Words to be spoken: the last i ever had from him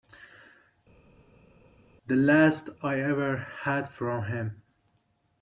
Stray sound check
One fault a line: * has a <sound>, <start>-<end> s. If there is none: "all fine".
all fine